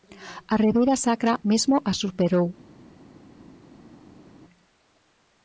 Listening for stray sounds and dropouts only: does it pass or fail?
pass